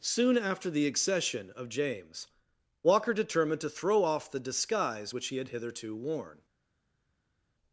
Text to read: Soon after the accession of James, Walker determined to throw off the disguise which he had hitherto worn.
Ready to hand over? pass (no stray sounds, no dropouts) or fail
pass